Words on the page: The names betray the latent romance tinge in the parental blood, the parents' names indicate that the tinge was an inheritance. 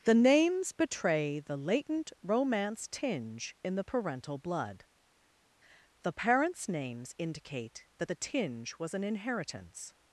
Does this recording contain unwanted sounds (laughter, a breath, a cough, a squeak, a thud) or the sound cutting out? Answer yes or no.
no